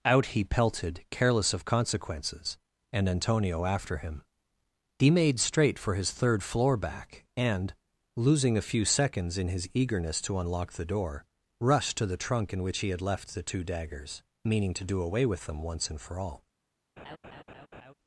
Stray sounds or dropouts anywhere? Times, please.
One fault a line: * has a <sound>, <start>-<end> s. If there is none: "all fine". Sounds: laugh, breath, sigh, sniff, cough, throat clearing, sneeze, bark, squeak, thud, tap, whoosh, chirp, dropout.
* has a laugh, 17.0-17.9 s